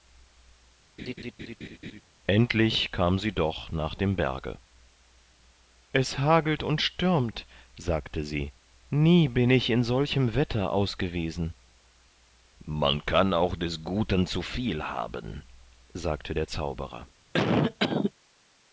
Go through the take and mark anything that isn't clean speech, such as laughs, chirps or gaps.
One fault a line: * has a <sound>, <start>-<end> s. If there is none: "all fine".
* has a laugh, 1.0-2.0 s
* has a cough, 17.3-18.1 s